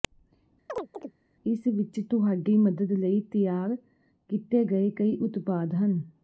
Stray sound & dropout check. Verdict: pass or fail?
fail